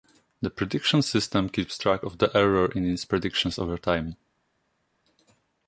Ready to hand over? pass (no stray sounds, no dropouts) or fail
pass